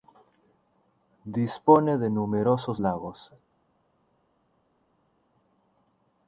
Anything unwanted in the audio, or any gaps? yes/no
no